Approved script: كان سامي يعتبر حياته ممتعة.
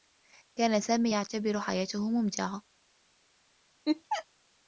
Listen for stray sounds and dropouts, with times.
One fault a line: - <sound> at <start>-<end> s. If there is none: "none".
- laugh at 3.9-4.3 s